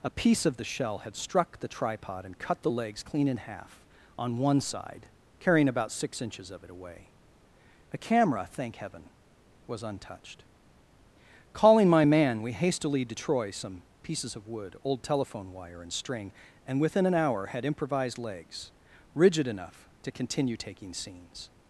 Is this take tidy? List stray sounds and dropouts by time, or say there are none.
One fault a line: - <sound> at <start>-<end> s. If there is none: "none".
none